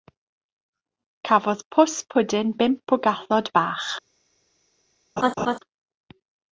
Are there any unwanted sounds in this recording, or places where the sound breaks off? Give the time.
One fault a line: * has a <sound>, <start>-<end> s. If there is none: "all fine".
* has a laugh, 5.2-5.6 s